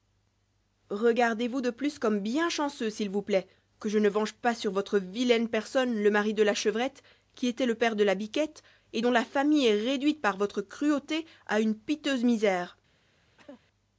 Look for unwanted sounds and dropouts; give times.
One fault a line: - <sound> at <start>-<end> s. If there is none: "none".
- cough at 13.4-13.6 s